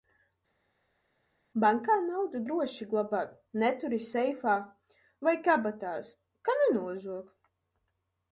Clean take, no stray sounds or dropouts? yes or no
yes